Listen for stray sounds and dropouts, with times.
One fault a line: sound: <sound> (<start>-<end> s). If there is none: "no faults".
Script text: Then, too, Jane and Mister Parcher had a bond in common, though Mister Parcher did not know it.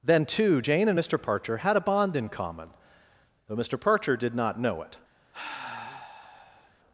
sound: sigh (5.3-6.7 s)